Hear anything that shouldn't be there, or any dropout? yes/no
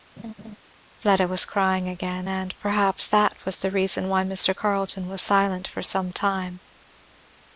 yes